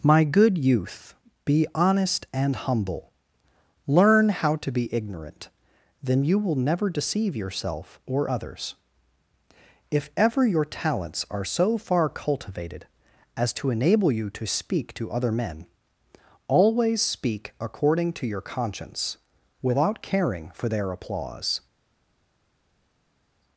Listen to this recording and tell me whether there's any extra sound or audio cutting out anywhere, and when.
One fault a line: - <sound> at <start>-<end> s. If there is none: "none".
none